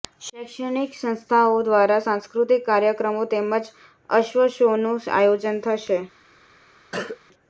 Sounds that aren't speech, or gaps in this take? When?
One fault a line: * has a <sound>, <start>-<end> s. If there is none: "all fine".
* has a cough, 6.9-7.2 s